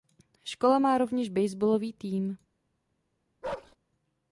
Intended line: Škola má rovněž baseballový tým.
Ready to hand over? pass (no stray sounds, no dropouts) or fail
fail